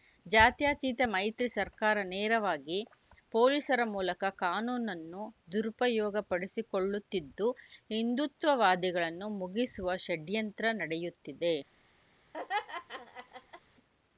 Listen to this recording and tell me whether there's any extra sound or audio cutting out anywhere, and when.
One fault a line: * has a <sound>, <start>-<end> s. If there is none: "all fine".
* has a laugh, 12.3-13.6 s